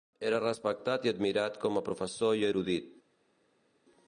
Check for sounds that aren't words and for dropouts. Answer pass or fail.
pass